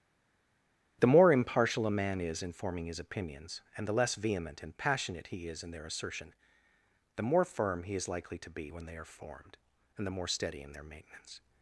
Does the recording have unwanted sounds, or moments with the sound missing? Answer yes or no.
no